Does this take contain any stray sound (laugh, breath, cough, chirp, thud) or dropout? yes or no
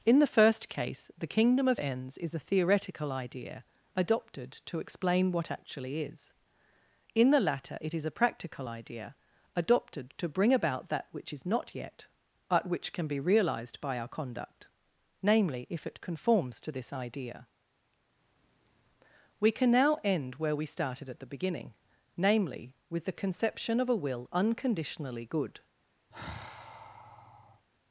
yes